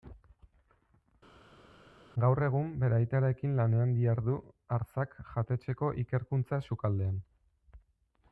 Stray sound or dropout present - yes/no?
no